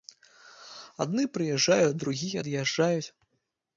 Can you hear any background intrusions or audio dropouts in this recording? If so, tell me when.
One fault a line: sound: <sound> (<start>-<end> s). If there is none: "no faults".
no faults